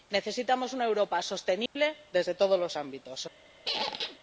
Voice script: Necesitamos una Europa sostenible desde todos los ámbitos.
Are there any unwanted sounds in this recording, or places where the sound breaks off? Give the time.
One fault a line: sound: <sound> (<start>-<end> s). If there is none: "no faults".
sound: dropout (1.7-1.8 s)
sound: squeak (3.7-4.2 s)